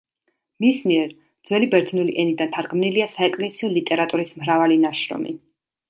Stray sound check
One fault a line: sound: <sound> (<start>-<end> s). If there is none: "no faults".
no faults